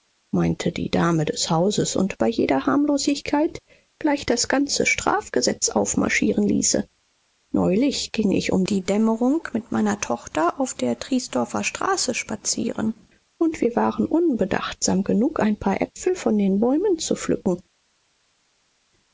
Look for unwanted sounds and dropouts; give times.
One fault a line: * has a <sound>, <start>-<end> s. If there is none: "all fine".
all fine